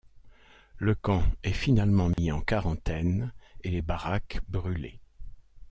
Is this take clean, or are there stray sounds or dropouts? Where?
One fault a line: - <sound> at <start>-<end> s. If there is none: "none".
- dropout at 2.1-2.2 s